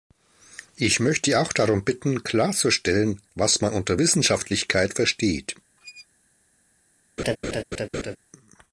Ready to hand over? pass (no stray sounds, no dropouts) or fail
fail